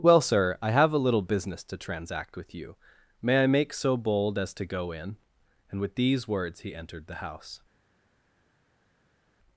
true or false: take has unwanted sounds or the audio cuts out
false